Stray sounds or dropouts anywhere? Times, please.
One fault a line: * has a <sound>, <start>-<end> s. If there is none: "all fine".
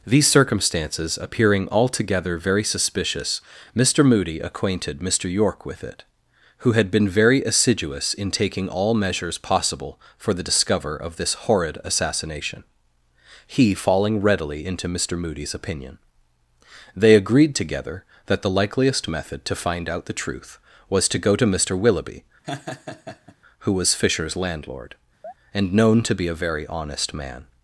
* has a laugh, 22.4-23.4 s
* has a chirp, 25.2-25.3 s